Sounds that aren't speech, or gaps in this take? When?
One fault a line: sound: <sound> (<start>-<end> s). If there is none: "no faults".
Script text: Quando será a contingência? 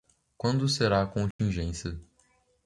sound: dropout (1.3-1.4 s)